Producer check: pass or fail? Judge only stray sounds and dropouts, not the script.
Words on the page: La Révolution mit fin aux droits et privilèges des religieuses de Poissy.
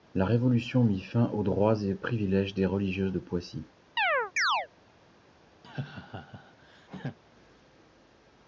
fail